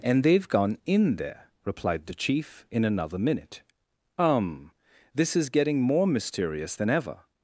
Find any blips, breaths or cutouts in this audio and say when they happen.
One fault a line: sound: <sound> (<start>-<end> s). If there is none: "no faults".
no faults